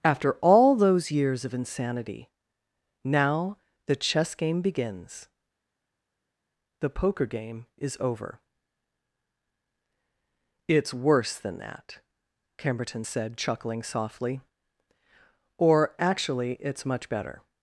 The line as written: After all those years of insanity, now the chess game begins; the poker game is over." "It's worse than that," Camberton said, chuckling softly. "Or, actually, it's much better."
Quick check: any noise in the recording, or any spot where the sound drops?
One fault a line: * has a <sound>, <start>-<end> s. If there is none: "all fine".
all fine